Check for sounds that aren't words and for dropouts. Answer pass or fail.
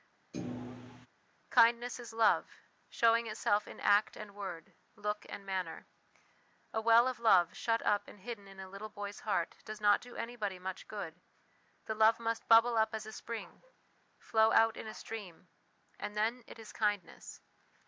fail